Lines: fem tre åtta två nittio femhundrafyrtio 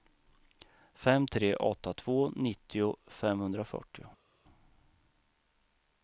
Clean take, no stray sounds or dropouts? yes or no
yes